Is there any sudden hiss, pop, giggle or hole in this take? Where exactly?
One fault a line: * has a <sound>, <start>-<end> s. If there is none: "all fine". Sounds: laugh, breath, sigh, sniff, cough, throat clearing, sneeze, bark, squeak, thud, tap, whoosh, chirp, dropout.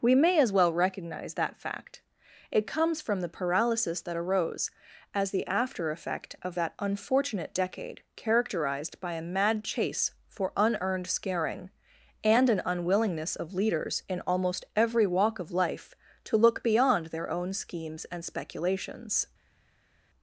all fine